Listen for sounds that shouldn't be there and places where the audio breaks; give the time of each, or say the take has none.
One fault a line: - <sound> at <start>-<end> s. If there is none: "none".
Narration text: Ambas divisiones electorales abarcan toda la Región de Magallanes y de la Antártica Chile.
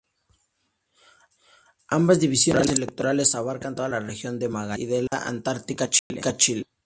- dropout at 5.1-5.1 s
- dropout at 6.0-6.1 s